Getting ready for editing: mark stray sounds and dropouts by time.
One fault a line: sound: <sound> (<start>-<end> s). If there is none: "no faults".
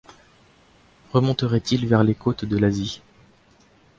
no faults